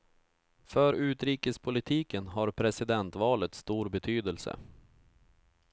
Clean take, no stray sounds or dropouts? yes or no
yes